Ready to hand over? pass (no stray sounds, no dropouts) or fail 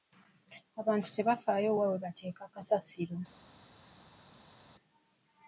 pass